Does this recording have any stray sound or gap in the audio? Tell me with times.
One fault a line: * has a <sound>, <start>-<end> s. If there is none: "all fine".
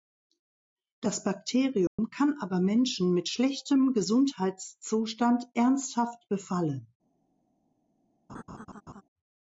* has a dropout, 1.9-2.0 s
* has a laugh, 8.3-9.0 s